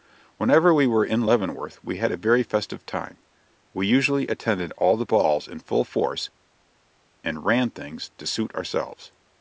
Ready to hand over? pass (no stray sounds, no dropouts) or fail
pass